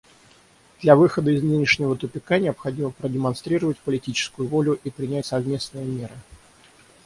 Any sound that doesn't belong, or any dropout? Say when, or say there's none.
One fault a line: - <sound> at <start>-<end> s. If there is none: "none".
none